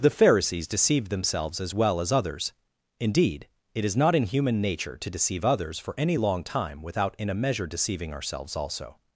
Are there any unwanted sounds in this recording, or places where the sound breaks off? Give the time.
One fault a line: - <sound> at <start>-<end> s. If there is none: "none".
none